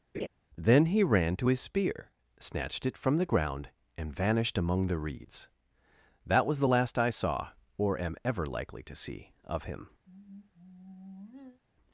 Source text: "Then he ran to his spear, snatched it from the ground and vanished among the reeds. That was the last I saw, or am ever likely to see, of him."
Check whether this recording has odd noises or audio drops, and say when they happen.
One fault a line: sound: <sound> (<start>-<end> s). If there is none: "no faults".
sound: laugh (0.1-0.3 s)
sound: sigh (10.1-11.6 s)